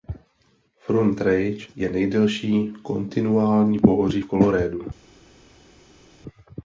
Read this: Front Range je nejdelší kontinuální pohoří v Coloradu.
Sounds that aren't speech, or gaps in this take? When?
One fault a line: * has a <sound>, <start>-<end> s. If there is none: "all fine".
all fine